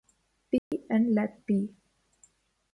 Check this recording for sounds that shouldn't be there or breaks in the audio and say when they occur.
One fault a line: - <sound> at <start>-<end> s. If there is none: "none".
- dropout at 0.6-0.7 s